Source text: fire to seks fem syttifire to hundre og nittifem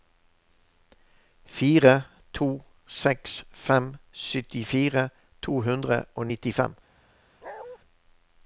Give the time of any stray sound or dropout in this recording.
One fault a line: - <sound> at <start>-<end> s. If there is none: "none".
- bark at 7.4-7.8 s